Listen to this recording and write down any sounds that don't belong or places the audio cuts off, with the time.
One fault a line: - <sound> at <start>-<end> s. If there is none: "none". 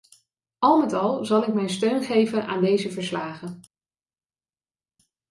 none